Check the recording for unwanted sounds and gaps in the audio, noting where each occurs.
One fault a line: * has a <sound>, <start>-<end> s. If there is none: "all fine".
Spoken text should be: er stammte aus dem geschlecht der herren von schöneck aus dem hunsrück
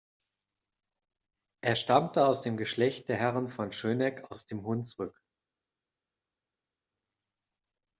all fine